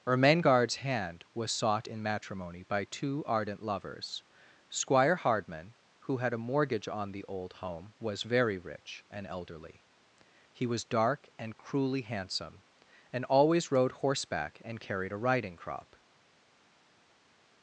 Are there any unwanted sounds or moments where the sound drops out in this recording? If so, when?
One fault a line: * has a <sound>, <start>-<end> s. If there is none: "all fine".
all fine